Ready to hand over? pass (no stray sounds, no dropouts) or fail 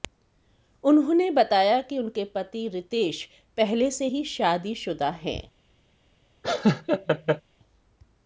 fail